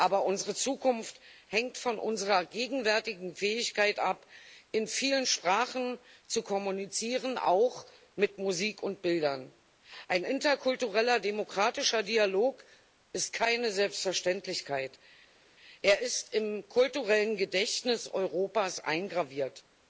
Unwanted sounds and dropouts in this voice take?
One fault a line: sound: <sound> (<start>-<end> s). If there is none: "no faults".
no faults